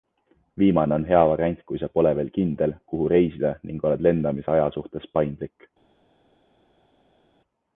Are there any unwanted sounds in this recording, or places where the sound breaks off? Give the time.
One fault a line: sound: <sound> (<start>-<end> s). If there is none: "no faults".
no faults